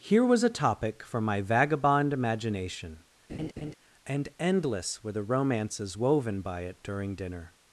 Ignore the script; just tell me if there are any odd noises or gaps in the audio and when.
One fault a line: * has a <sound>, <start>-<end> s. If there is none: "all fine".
* has a laugh, 3.3-3.8 s